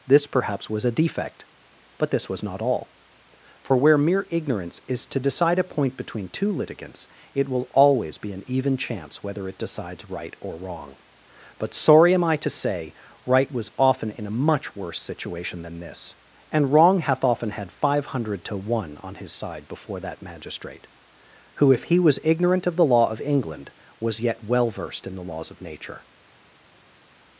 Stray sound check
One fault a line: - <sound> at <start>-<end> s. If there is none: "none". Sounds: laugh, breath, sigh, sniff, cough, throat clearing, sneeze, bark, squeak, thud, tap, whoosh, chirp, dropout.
none